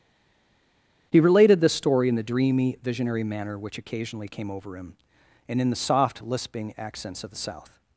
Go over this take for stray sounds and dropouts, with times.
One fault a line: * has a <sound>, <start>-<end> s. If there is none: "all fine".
all fine